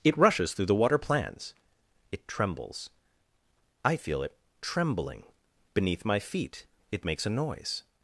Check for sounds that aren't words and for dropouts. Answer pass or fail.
pass